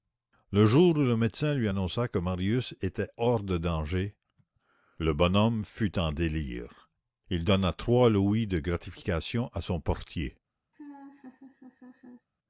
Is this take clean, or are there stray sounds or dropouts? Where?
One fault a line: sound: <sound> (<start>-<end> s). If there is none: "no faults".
sound: laugh (10.7-12.3 s)